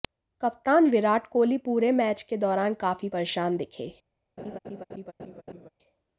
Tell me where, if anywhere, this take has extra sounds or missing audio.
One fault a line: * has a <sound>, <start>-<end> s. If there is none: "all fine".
* has a laugh, 4.4-5.7 s